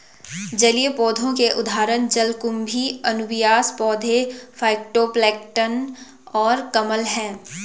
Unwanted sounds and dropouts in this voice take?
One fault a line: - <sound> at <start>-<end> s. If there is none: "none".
none